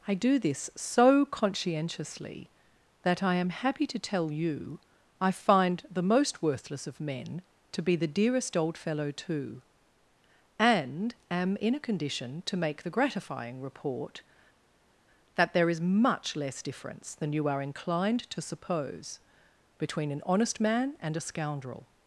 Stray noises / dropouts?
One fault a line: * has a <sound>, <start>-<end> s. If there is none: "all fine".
all fine